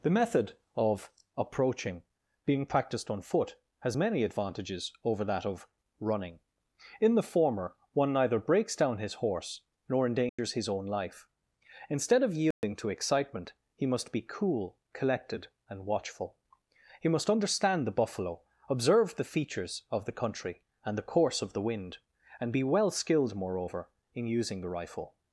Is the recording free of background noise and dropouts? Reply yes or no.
no